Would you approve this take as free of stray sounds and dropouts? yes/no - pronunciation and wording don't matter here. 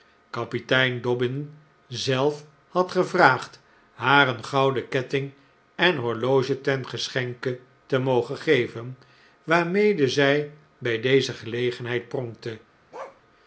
no